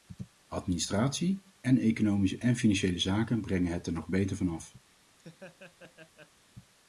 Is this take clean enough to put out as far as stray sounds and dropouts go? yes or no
no